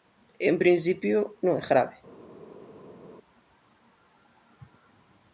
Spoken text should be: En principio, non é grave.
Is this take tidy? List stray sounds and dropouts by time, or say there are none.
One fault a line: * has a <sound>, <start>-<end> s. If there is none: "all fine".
all fine